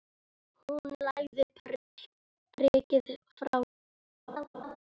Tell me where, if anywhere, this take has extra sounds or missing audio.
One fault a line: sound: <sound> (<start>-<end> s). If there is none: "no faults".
sound: dropout (1.8-1.9 s)
sound: laugh (4.3-4.8 s)